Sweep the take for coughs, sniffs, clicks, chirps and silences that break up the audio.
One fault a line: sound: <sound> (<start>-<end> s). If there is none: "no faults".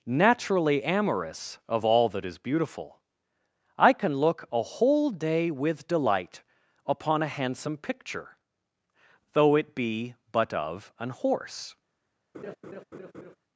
sound: laugh (12.3-13.4 s)